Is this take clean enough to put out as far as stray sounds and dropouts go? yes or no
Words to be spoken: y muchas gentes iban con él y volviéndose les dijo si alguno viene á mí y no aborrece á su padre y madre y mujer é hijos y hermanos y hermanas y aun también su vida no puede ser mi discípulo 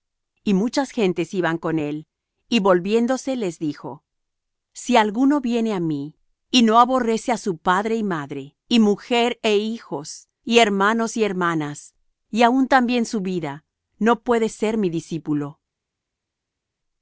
yes